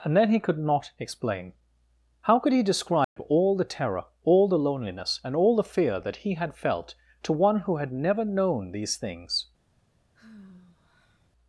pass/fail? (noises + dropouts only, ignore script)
fail